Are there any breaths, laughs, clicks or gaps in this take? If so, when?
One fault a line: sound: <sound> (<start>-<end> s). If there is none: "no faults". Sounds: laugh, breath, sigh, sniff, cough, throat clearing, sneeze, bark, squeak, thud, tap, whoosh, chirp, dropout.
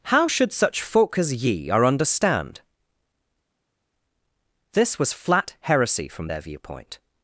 no faults